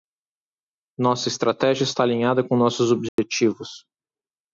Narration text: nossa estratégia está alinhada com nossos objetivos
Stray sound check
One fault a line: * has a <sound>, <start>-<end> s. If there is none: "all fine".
* has a dropout, 3.1-3.2 s